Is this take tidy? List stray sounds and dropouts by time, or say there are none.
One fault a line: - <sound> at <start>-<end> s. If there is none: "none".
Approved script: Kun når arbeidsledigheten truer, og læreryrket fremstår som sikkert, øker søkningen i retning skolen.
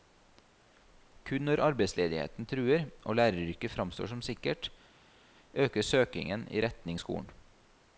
none